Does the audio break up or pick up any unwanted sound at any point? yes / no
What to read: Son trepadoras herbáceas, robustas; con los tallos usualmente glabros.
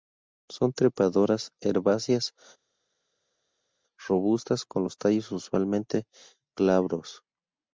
no